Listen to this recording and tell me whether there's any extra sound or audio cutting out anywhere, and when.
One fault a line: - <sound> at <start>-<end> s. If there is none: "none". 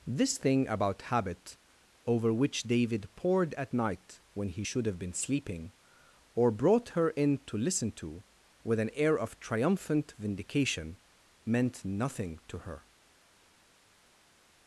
none